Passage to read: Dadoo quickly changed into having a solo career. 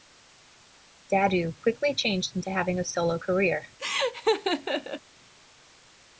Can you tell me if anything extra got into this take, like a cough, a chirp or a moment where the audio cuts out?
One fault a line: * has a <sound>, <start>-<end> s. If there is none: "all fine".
* has a laugh, 3.8-5.0 s